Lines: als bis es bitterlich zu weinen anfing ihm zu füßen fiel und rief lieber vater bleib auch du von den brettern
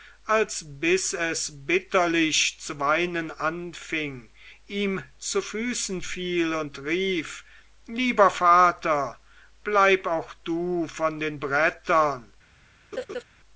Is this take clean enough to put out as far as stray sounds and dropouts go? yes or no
no